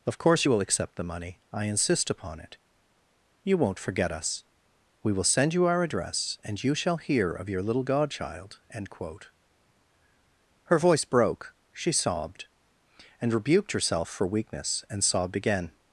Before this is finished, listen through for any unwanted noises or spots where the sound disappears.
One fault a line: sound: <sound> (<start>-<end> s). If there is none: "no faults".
no faults